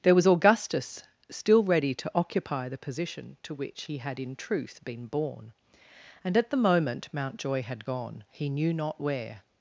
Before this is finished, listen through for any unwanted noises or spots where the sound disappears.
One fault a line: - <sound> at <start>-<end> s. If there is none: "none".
none